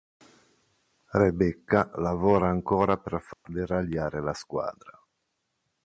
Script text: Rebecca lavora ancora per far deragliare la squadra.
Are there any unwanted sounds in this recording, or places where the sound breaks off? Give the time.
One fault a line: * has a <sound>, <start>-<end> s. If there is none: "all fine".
* has a dropout, 3.3-3.5 s